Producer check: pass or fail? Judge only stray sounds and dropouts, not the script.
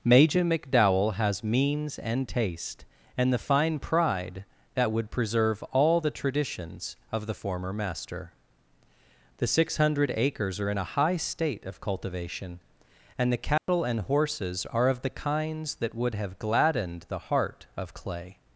fail